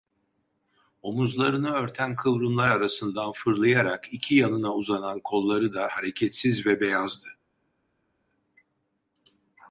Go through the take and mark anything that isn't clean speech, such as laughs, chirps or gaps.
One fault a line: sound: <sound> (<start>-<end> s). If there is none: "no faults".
no faults